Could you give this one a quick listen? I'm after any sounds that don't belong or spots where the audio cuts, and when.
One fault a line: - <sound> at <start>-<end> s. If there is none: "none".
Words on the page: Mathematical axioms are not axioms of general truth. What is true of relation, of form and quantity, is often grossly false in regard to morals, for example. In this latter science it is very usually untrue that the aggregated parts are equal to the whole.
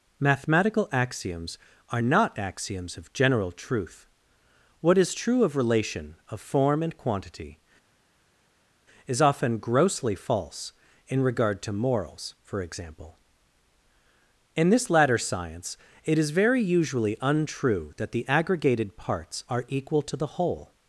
none